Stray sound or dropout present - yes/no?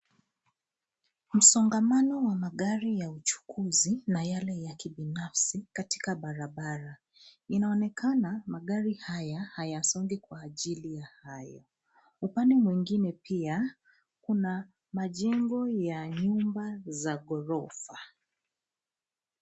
no